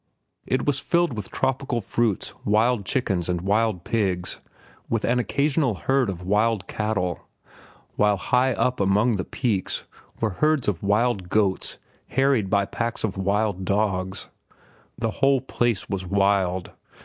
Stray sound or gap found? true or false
false